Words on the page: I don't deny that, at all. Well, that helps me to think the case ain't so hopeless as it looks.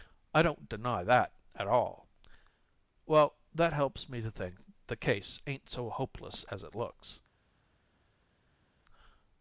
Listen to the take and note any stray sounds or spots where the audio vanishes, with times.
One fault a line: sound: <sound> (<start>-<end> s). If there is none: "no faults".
no faults